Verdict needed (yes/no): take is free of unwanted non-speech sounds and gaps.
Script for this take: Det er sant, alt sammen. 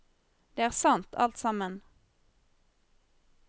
yes